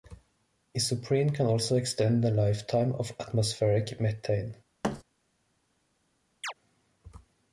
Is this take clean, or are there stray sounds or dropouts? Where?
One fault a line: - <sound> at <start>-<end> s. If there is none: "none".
- thud at 4.8-5.0 s
- chirp at 6.4-6.5 s